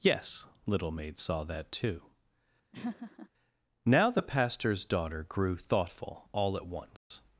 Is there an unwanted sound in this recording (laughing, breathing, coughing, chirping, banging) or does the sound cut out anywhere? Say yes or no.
yes